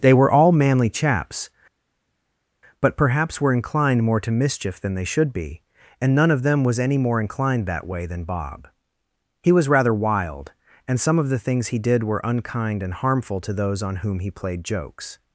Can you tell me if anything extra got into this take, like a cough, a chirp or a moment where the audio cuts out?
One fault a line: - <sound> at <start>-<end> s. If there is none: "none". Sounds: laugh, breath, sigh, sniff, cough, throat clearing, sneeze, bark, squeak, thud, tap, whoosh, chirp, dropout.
none